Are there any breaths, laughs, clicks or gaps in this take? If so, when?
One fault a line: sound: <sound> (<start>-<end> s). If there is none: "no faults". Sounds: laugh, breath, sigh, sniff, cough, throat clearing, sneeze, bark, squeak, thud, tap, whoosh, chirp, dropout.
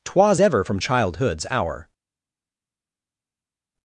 no faults